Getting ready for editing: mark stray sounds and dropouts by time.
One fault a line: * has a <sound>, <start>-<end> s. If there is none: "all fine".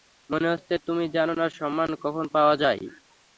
all fine